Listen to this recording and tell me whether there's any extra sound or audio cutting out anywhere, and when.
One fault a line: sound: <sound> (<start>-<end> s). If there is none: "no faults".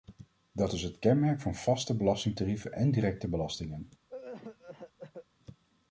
sound: cough (4.1-5.3 s)